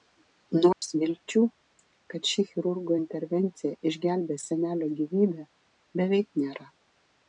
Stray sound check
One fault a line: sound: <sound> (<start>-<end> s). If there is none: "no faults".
sound: dropout (0.7-0.8 s)